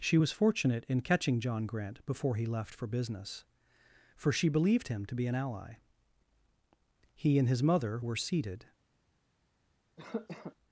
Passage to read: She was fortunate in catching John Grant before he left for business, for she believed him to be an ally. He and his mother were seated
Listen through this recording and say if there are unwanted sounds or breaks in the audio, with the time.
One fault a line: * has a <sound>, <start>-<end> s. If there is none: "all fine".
* has a cough, 10.0-10.6 s